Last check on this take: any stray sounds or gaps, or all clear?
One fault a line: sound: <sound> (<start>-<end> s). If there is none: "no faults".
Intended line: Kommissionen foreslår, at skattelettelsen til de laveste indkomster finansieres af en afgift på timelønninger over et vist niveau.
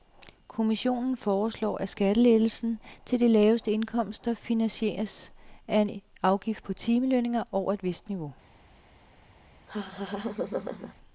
sound: laugh (9.7-10.9 s)